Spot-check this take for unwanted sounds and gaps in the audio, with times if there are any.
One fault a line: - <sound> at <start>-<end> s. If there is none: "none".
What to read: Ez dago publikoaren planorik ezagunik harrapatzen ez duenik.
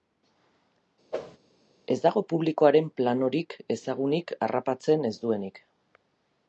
- whoosh at 1.1-1.4 s